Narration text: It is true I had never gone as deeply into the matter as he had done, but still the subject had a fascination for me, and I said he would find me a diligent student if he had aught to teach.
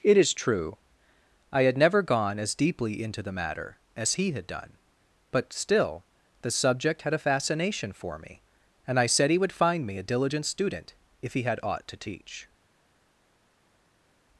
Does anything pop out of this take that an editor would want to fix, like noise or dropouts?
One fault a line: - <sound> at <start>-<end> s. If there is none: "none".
none